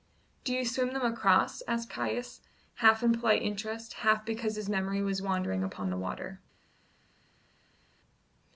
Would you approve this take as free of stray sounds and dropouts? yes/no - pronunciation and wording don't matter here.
yes